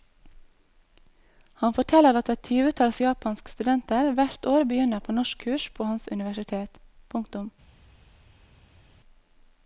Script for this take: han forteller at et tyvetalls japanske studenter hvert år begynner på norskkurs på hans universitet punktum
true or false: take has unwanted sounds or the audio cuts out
false